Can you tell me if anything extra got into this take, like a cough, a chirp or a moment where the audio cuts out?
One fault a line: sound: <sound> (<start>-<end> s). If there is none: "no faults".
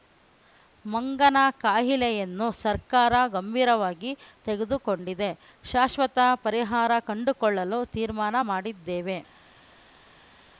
no faults